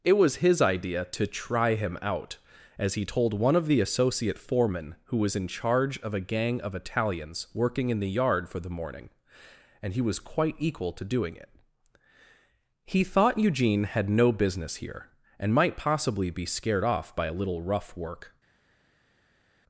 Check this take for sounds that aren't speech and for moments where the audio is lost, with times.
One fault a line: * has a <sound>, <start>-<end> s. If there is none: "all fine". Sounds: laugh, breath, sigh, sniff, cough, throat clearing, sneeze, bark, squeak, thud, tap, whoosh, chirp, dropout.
all fine